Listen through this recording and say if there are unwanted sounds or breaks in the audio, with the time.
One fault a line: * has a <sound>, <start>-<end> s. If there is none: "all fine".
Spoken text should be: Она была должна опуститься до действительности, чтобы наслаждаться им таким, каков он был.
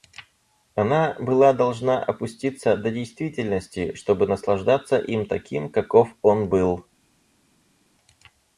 all fine